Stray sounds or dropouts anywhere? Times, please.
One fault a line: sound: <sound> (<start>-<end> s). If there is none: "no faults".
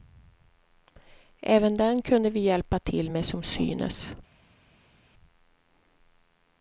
no faults